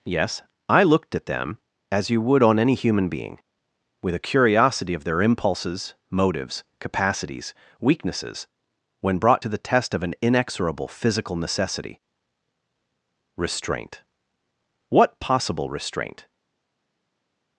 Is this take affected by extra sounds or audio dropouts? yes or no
no